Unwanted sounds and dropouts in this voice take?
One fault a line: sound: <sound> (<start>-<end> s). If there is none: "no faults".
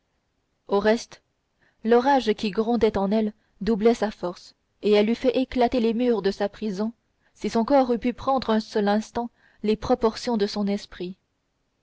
no faults